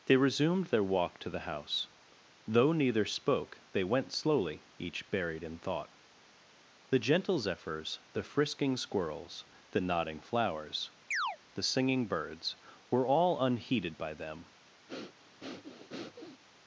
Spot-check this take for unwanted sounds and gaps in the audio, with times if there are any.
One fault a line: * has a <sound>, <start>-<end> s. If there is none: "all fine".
* has a chirp, 11.1-11.4 s
* has a breath, 14.9-16.4 s